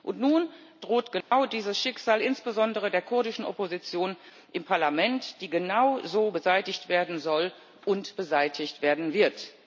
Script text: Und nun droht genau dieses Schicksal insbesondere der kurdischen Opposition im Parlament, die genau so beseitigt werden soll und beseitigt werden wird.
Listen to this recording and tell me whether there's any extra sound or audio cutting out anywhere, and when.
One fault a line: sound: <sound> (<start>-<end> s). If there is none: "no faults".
sound: dropout (1.2-1.3 s)